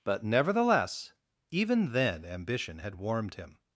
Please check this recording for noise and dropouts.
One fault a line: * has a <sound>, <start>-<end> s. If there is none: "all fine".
all fine